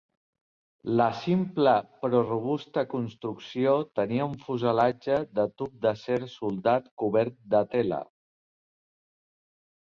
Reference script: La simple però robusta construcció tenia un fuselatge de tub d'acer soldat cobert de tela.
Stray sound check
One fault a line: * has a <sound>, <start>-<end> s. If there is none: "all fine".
all fine